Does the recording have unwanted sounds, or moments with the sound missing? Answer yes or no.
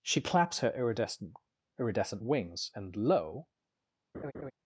yes